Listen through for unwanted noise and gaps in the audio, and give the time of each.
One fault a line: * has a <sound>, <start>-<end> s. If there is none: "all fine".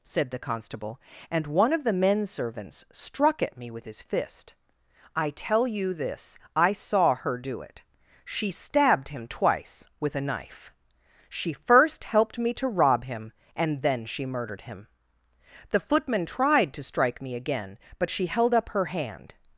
all fine